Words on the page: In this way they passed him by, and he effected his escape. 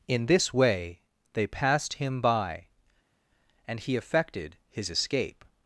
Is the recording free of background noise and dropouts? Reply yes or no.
yes